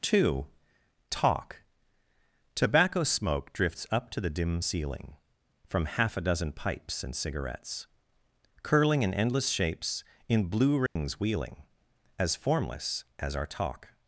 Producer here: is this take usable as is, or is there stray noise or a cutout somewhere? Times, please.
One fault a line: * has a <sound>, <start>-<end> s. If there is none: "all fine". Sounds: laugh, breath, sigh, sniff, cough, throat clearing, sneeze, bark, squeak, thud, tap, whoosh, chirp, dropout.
* has a dropout, 10.9-11.0 s